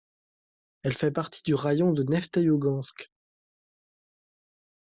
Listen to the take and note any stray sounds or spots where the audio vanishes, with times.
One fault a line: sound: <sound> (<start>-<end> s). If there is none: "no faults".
no faults